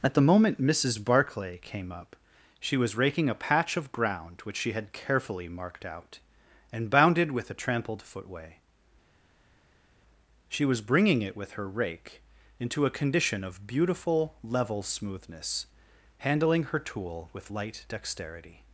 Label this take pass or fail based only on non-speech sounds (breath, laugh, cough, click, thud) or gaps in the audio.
pass